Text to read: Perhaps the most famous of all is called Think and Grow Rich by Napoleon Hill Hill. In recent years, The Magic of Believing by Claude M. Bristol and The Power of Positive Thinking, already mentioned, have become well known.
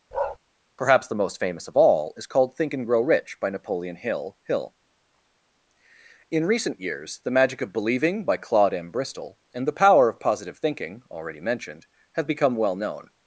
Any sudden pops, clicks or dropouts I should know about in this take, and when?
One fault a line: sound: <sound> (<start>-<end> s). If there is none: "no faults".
sound: bark (0.1-0.4 s)